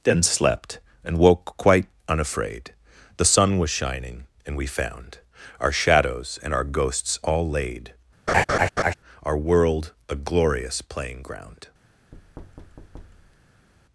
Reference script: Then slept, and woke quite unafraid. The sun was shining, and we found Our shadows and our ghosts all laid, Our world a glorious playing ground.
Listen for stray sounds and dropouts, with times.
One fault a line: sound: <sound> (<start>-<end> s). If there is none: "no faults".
sound: laugh (8.3-8.9 s)
sound: thud (12.1-13.7 s)